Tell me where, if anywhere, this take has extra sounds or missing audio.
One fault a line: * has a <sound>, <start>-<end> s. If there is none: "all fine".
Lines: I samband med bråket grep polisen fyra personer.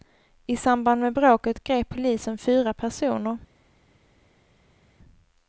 all fine